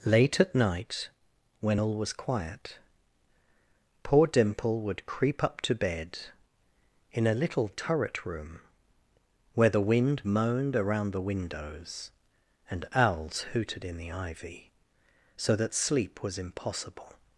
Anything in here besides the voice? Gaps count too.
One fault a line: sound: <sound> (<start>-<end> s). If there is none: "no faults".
no faults